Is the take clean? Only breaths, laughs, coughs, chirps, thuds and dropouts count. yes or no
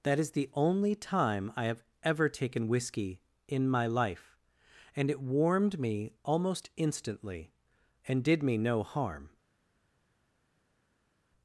yes